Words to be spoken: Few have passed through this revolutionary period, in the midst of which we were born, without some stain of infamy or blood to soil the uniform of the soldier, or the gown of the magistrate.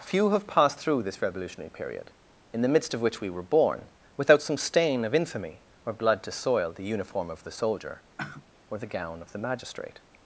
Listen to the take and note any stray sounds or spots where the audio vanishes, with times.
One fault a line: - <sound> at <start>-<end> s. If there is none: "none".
- sigh at 8.2-8.5 s